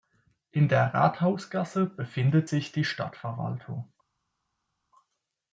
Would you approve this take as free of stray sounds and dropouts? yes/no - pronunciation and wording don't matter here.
yes